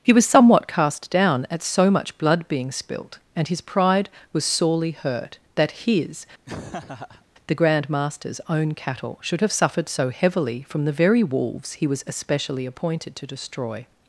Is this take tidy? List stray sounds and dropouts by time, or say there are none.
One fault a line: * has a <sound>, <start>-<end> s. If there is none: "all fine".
* has a laugh, 6.5-7.3 s